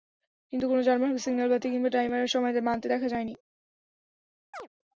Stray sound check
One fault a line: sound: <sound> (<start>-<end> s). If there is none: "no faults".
sound: chirp (4.5-4.7 s)